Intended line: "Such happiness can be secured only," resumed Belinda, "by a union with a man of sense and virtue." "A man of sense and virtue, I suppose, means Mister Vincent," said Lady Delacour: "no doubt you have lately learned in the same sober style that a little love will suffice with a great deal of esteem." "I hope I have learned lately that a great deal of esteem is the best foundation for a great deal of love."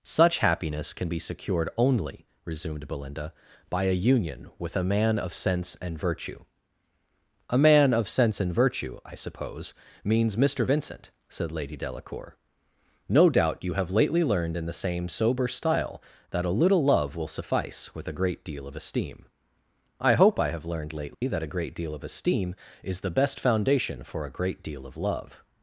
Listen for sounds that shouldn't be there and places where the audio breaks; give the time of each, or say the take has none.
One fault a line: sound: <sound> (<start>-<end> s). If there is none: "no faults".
sound: dropout (21.1-21.2 s)